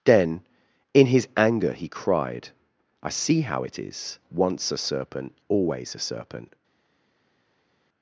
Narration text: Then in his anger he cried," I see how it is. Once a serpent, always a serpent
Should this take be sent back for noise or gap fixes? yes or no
no